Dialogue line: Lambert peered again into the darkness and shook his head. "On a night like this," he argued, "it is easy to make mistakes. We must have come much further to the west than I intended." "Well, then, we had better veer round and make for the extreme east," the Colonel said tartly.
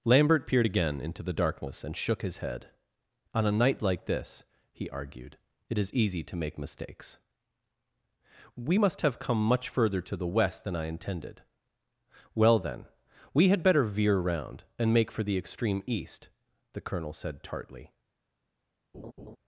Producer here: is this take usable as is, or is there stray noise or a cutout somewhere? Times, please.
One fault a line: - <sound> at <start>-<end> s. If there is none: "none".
- laugh at 18.9-19.4 s